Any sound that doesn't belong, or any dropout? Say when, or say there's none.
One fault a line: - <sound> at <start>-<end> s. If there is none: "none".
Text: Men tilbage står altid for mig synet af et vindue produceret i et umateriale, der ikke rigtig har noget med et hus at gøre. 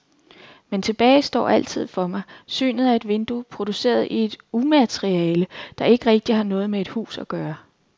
none